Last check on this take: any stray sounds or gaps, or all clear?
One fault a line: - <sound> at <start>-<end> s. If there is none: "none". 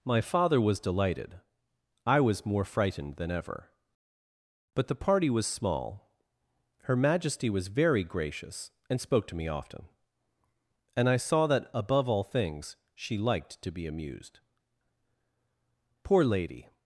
none